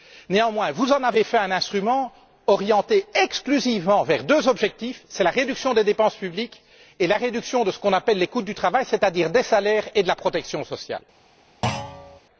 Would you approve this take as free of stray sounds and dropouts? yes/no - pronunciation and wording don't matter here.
no